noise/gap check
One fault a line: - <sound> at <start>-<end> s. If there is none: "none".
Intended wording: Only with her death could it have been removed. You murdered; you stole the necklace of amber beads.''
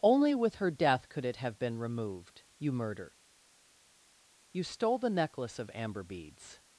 none